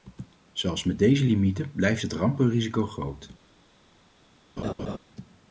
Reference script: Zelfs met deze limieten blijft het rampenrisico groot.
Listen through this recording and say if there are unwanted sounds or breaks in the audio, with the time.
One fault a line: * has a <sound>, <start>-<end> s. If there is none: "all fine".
* has a laugh, 4.6-5.0 s